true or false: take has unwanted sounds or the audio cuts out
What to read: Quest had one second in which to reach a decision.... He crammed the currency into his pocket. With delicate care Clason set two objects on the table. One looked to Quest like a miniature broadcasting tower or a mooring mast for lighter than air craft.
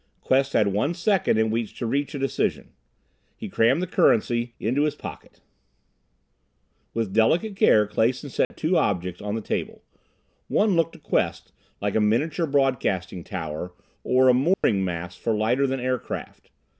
true